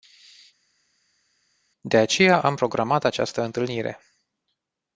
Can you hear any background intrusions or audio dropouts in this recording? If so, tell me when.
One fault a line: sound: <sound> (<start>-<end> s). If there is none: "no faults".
no faults